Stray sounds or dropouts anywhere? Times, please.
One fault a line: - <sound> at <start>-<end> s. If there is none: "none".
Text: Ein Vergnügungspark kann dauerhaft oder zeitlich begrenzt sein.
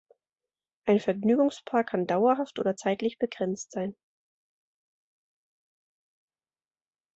none